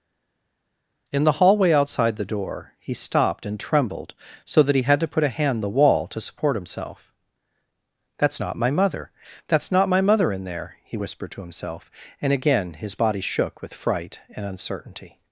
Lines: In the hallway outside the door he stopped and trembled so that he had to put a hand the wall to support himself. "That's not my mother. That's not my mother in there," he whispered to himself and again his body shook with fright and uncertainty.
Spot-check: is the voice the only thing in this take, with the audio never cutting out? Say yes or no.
yes